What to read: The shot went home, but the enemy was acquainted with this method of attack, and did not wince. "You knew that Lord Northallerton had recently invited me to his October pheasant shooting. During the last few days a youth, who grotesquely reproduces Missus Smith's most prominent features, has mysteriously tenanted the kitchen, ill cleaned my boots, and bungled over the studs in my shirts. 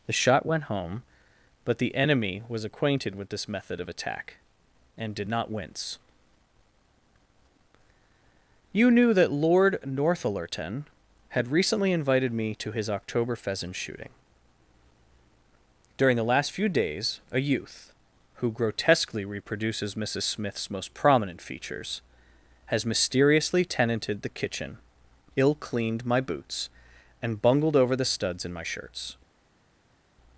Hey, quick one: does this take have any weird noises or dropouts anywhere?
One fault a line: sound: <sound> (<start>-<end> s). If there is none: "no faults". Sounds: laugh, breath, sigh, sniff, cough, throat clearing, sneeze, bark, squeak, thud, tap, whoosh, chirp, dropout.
no faults